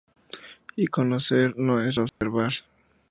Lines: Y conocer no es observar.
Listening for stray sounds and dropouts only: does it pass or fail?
fail